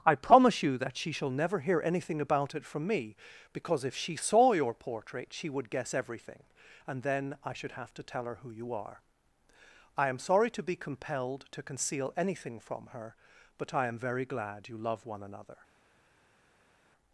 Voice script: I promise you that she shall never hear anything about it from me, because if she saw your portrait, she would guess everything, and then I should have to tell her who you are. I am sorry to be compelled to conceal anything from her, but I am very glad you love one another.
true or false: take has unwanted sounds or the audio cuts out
false